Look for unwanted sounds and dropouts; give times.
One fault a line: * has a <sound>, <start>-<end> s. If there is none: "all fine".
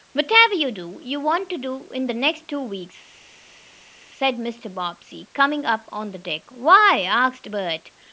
all fine